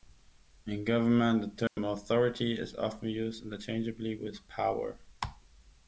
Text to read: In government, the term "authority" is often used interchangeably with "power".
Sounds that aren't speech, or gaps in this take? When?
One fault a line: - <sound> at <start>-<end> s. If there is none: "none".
- dropout at 1.7-1.8 s